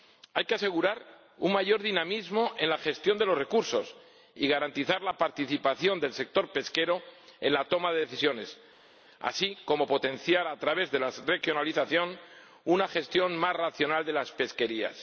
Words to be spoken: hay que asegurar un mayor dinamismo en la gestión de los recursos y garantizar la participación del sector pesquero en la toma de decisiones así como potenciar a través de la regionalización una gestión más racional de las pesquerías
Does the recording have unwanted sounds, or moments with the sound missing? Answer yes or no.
no